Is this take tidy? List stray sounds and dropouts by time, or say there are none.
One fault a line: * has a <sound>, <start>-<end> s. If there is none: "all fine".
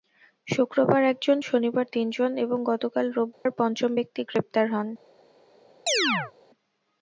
* has a dropout, 3.3-3.5 s
* has a chirp, 5.9-6.3 s